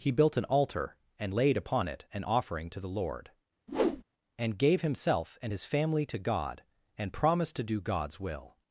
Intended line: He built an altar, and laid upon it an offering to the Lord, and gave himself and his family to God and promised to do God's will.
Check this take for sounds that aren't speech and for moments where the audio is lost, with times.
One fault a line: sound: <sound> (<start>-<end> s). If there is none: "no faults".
sound: whoosh (3.7-4.0 s)